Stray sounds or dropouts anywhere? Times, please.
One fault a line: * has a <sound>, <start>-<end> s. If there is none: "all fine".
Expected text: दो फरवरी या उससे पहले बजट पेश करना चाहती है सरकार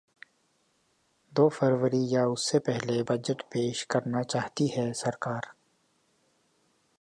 all fine